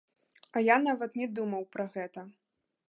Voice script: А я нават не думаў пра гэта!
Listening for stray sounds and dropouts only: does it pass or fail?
pass